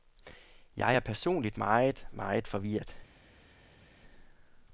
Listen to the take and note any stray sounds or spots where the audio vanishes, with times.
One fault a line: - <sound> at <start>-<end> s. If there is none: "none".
none